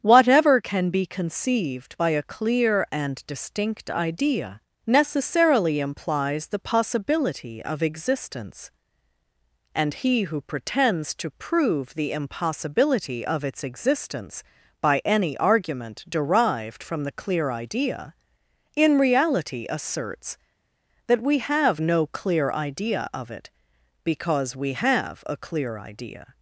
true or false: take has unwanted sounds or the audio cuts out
false